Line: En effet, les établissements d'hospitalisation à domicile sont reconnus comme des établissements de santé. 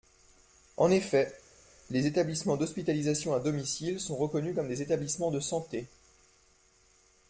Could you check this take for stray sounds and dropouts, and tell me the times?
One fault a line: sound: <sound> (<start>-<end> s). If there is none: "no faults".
no faults